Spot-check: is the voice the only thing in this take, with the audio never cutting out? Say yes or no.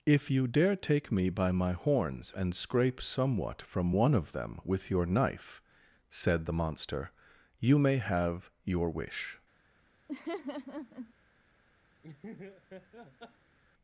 no